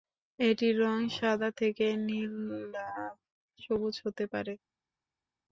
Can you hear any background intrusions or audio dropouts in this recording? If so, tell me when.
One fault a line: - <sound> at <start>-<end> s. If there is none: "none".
none